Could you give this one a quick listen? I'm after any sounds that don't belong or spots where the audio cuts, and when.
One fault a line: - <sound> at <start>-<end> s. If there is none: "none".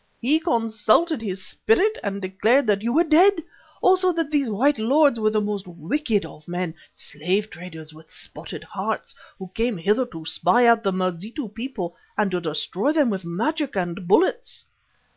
none